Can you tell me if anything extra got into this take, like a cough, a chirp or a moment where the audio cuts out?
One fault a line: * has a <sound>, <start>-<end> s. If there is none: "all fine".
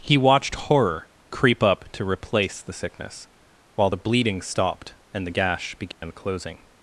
* has a dropout, 5.9-6.0 s